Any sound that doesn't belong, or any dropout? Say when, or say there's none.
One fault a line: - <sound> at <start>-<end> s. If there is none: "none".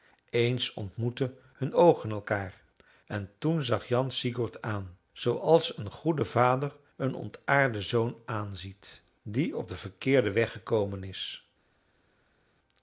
none